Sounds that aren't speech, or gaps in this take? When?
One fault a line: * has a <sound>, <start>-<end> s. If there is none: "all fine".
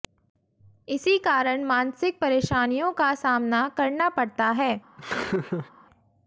* has a laugh, 5.0-5.7 s